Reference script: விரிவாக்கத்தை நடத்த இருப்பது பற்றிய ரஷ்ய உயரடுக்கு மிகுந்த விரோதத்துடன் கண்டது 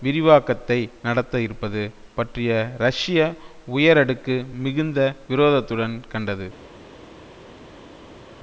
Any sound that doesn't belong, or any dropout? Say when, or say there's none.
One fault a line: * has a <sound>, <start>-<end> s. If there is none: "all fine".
all fine